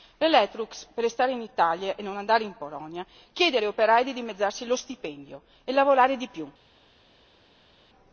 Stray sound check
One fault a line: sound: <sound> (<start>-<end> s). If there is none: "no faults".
no faults